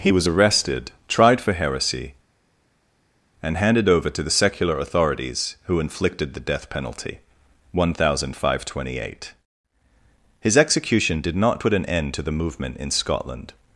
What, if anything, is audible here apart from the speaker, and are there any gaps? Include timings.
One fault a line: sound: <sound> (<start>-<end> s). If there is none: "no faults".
no faults